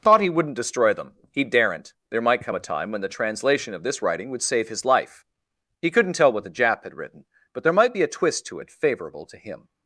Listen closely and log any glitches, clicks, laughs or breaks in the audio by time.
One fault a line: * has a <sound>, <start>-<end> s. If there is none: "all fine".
all fine